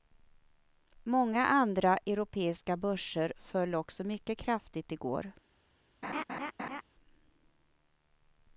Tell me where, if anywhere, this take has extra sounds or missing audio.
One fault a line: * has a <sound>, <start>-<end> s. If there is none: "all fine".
* has a laugh, 6.0-6.8 s